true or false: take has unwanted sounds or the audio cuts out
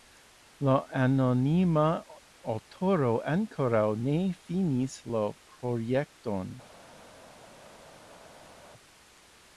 false